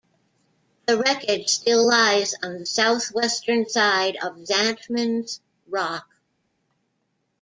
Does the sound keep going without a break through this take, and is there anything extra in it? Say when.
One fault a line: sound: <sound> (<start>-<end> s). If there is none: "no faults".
no faults